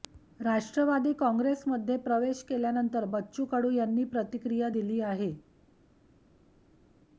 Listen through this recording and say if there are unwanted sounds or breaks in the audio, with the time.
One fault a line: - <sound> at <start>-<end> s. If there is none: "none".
none